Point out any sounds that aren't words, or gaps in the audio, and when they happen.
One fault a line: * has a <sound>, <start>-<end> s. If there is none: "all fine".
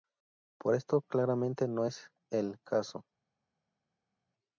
all fine